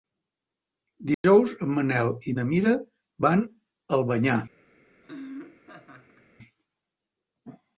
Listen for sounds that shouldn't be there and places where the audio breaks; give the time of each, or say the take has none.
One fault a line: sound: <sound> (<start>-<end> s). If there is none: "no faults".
sound: dropout (1.1-1.2 s)
sound: laugh (5.0-6.3 s)